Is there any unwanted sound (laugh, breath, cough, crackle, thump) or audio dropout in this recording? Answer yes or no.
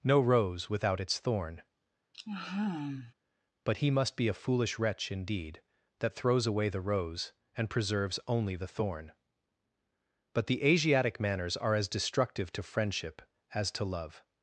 yes